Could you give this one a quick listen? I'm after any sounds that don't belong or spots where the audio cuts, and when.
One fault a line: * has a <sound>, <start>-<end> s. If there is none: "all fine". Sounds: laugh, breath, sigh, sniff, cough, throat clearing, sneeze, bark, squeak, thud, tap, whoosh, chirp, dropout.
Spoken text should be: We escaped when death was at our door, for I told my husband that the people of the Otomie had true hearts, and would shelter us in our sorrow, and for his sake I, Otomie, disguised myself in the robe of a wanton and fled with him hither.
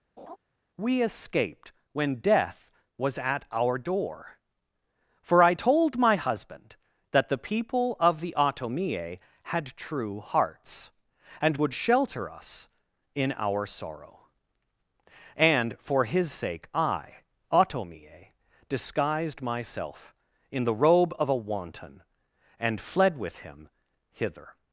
* has a laugh, 0.2-0.4 s